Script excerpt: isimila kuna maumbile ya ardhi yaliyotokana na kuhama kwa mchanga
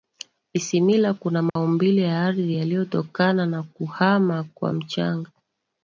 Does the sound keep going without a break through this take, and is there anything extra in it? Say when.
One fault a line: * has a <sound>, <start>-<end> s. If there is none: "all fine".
* has a dropout, 1.5-1.6 s